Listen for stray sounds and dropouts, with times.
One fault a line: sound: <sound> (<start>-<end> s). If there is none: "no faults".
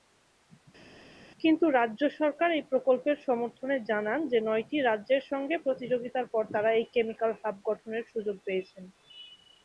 no faults